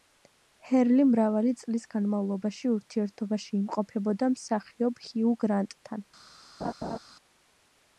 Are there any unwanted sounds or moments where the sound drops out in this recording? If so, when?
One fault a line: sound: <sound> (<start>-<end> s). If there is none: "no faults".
sound: laugh (6.6-7.0 s)